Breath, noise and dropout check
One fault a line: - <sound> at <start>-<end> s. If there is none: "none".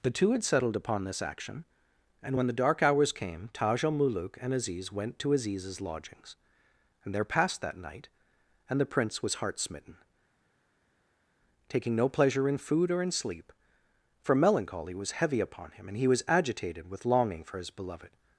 none